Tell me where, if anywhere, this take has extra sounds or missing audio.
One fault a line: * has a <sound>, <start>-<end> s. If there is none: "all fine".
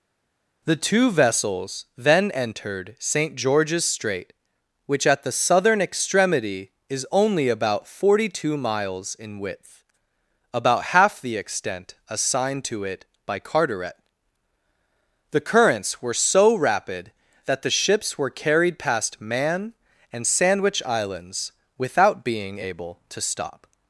all fine